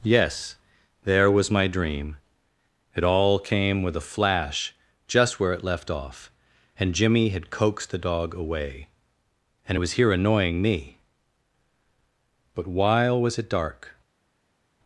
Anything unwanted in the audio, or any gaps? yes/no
no